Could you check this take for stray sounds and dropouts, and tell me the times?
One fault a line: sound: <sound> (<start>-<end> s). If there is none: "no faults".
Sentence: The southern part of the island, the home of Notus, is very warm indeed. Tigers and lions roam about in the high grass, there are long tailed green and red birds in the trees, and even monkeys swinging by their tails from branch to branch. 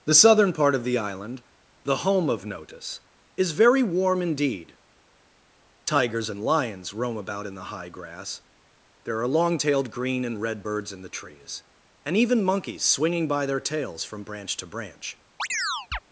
sound: chirp (15.4-16.0 s)